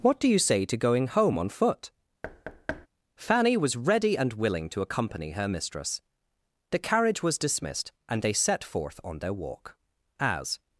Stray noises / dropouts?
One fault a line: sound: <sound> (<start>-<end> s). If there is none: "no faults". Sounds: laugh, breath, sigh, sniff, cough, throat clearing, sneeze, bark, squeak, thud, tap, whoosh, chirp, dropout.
sound: thud (2.2-2.9 s)